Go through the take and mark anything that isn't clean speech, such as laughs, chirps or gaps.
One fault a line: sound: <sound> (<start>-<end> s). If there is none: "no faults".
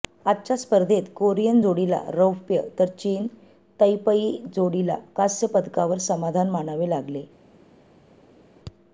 no faults